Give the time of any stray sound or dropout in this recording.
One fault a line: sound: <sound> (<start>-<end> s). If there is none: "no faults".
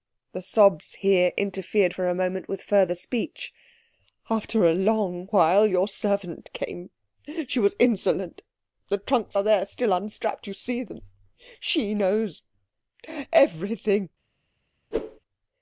sound: whoosh (14.9-15.2 s)